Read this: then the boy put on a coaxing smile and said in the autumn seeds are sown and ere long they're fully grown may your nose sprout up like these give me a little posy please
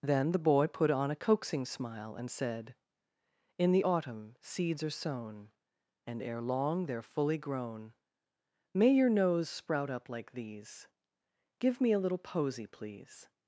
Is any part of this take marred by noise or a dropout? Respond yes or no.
no